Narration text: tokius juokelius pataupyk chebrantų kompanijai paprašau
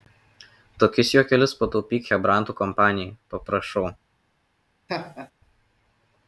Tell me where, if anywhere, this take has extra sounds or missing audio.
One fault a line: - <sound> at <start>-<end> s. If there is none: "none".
- laugh at 4.9-5.3 s